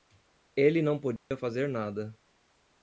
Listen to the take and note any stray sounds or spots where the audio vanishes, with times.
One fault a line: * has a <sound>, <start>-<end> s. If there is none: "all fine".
* has a dropout, 1.2-1.3 s